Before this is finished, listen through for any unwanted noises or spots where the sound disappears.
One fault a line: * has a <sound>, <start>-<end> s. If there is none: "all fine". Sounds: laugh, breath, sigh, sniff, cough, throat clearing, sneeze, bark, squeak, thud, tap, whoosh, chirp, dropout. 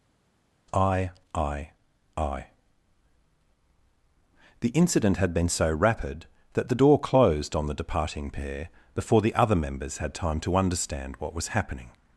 all fine